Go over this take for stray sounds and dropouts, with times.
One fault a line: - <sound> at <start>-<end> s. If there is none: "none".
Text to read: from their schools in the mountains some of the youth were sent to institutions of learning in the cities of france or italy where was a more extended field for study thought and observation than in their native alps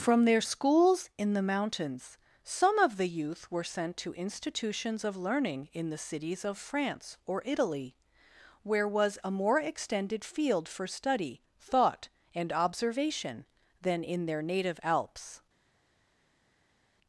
none